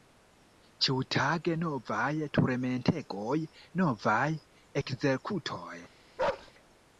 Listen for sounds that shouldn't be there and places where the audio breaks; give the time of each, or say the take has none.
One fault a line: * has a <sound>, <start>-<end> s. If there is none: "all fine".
* has a bark, 6.2-6.5 s